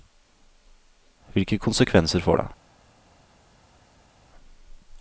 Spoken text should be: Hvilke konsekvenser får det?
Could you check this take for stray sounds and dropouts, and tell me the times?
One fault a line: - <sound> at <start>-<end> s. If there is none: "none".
none